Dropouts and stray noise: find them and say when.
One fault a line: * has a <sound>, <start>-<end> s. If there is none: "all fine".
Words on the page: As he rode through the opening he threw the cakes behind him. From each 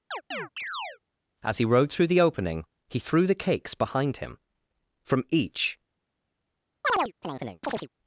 * has a chirp, 0.1-1.0 s
* has a chirp, 6.8-7.9 s